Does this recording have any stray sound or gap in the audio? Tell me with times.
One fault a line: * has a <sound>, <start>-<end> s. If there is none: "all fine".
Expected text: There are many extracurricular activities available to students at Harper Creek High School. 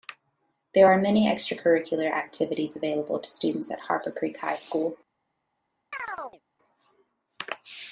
* has a chirp, 5.9-6.4 s